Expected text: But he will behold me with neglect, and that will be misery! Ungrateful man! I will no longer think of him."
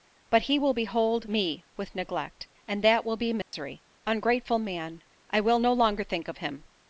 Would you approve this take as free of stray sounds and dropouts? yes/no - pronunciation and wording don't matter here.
no